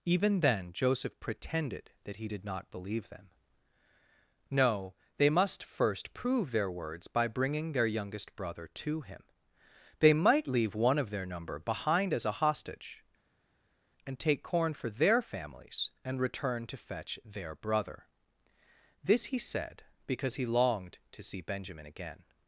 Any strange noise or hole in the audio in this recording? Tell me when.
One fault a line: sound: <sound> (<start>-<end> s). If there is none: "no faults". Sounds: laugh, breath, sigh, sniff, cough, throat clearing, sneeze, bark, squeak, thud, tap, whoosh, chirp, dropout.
no faults